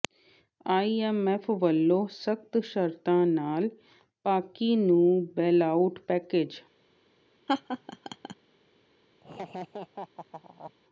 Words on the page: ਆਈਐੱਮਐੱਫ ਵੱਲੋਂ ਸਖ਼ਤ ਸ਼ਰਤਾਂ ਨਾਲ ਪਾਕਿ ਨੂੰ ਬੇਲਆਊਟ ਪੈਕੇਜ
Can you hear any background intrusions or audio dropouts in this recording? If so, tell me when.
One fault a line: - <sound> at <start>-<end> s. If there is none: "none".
- laugh at 7.5-8.3 s
- laugh at 9.2-10.7 s